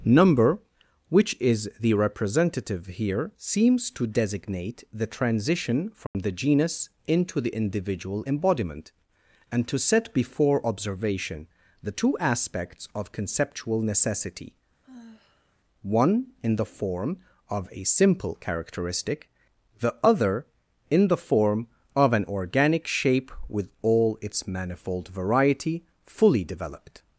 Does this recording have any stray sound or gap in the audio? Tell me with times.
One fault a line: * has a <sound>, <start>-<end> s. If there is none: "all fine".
* has a dropout, 6.1-6.1 s
* has a sigh, 14.8-15.6 s